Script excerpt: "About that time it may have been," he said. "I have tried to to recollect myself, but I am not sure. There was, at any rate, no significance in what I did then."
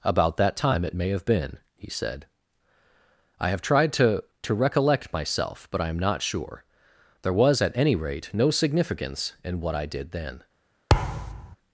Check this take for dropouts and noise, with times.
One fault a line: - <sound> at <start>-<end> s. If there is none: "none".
- thud at 10.9-11.6 s